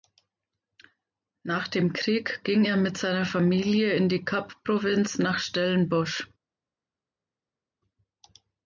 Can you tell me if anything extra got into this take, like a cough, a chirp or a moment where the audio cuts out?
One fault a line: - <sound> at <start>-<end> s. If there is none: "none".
none